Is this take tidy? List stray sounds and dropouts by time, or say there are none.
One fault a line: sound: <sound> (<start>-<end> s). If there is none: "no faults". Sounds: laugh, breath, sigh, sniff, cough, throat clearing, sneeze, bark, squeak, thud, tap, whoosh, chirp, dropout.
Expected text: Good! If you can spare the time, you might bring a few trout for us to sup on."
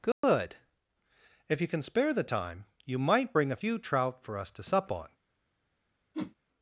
sound: dropout (0.1-0.2 s)
sound: whoosh (6.1-6.4 s)